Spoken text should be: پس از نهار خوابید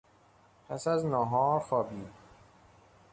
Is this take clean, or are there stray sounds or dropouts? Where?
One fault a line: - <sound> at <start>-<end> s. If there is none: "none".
none